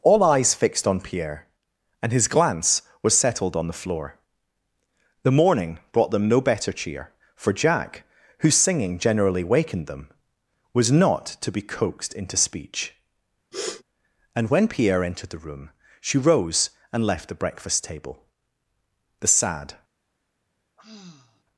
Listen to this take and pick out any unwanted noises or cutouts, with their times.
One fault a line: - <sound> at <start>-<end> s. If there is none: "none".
- sniff at 13.5-13.8 s
- sigh at 20.8-21.4 s